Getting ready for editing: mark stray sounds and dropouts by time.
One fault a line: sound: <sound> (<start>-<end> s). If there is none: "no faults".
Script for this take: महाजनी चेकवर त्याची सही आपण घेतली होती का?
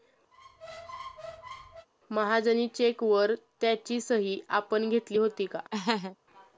sound: squeak (0.3-1.9 s)
sound: laugh (5.7-6.2 s)